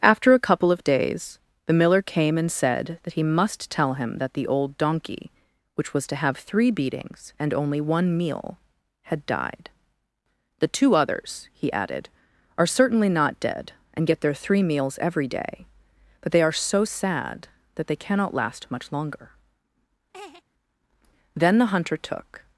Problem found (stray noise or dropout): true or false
true